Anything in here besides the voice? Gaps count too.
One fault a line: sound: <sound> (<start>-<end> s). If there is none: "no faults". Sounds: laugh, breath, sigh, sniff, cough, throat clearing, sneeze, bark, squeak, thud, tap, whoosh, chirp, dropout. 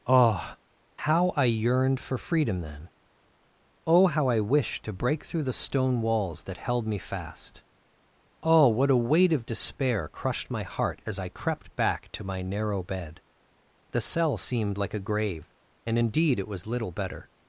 no faults